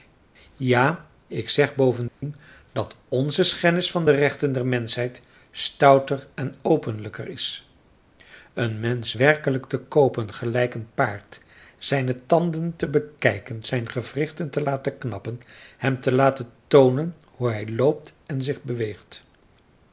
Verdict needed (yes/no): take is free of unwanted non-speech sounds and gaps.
no